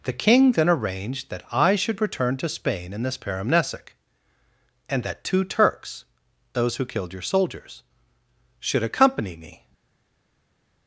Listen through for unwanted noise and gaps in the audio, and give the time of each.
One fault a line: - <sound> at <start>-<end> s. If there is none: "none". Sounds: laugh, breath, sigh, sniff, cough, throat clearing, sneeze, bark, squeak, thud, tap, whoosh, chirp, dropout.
none